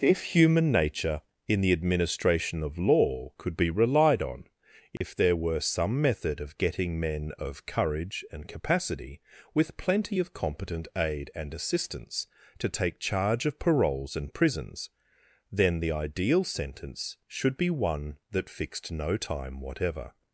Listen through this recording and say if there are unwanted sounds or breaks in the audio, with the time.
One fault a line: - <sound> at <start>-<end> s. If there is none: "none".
- dropout at 5.0-5.0 s